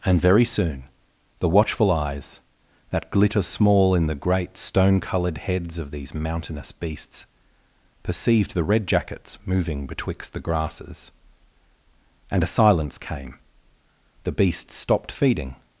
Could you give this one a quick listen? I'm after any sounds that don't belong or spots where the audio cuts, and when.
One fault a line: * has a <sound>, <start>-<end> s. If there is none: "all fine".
all fine